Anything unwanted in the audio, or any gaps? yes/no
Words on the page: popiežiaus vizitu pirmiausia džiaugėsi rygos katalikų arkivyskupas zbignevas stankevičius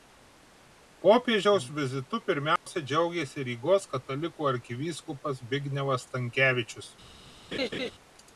yes